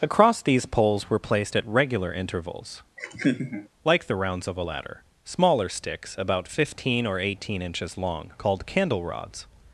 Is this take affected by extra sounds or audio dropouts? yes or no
yes